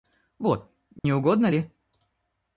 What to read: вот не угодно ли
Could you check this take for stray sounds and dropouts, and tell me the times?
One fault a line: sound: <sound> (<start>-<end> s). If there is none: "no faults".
sound: dropout (1.0-1.0 s)